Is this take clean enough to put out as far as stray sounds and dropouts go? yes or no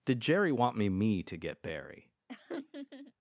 no